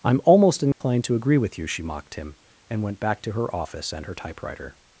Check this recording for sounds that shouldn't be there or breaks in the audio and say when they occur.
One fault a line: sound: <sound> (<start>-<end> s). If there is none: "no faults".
sound: dropout (0.7-0.8 s)